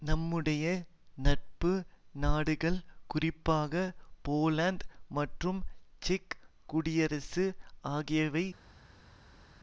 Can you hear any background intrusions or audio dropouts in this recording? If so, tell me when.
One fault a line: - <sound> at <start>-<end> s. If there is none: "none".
none